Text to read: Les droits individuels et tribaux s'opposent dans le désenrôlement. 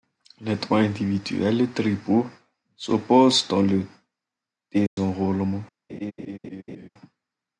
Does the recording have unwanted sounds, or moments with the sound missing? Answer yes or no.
yes